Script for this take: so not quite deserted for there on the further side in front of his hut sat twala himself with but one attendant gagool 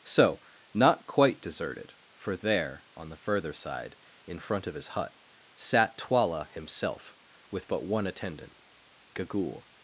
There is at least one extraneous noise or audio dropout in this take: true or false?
false